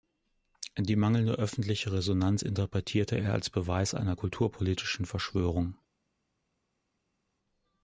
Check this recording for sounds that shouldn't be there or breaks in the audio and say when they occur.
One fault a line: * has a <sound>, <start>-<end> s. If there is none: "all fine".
all fine